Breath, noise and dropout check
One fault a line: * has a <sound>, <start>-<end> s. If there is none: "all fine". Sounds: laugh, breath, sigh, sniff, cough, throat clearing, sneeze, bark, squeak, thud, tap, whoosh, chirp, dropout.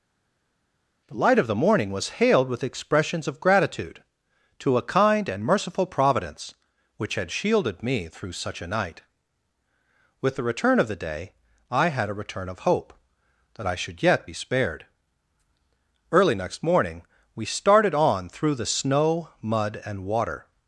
all fine